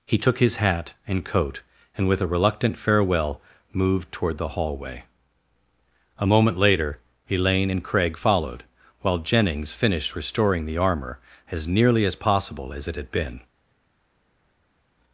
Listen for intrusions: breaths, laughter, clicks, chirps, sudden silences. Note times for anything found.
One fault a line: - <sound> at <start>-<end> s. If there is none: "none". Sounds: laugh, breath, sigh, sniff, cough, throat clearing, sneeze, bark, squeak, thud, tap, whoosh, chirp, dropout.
none